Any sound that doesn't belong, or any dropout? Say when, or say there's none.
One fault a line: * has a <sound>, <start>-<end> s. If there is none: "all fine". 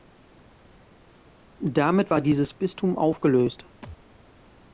* has a thud, 3.8-4.0 s